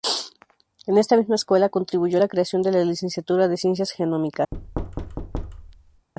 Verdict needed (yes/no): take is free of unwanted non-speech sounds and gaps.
no